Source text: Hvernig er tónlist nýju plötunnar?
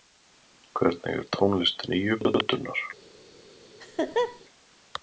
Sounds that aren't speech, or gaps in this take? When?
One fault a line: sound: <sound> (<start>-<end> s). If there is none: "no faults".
sound: laugh (3.8-4.4 s)